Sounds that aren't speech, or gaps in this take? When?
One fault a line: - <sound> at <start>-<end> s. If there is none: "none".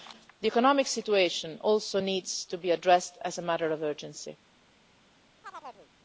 - chirp at 5.4-5.9 s